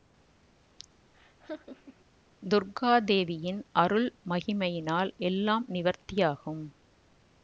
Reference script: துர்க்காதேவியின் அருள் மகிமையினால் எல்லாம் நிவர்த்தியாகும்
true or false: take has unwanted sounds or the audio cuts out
true